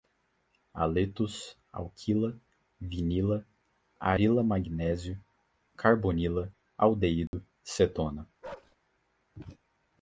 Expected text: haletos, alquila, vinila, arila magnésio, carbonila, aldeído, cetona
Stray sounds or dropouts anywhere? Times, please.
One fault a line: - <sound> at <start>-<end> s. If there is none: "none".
- dropout at 7.3-7.3 s
- bark at 8.4-8.8 s